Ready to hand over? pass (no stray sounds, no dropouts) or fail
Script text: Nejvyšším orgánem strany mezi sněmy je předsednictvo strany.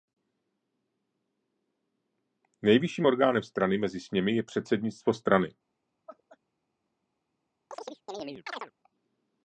fail